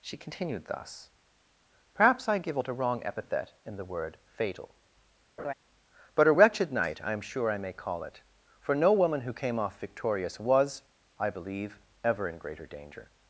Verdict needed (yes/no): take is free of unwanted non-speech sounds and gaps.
no